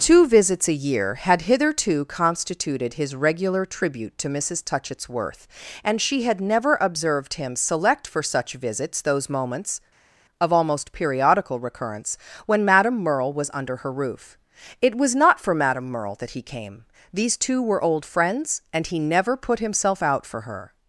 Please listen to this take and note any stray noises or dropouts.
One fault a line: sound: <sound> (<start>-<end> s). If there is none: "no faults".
no faults